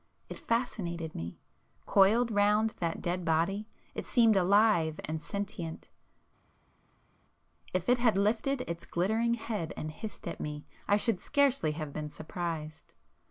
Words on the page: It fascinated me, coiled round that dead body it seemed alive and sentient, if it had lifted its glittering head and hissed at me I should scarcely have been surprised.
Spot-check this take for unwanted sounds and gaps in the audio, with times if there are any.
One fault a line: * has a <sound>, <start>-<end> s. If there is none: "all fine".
all fine